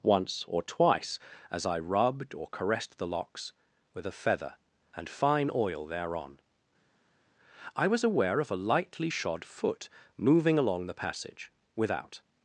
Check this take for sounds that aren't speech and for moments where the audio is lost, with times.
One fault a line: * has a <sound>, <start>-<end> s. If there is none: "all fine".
all fine